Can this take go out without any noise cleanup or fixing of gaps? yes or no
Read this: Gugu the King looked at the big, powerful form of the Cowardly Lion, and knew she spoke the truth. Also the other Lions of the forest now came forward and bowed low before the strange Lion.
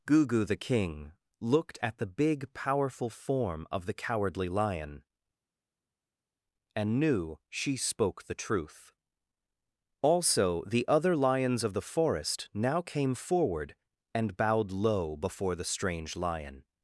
yes